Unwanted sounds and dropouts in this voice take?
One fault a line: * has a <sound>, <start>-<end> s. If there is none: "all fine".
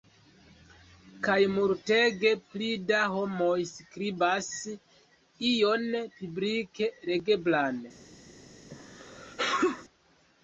* has a sneeze, 8.7-9.9 s